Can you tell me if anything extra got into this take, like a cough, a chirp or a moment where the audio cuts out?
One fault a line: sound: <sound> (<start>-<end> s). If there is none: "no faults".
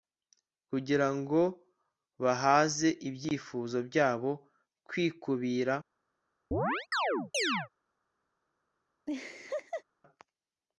sound: chirp (6.5-7.7 s)
sound: laugh (9.1-9.8 s)